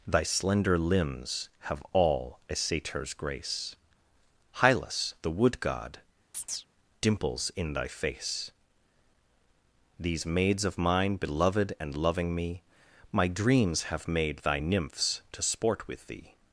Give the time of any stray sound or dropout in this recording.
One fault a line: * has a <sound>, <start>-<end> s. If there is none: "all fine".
* has a chirp, 6.3-6.7 s